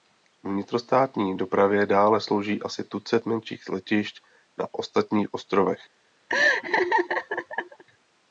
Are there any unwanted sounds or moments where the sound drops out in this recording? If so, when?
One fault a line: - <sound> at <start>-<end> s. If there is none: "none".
- laugh at 6.3-7.8 s